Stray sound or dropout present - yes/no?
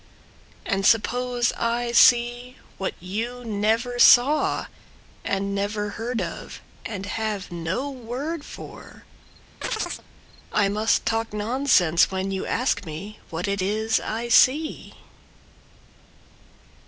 yes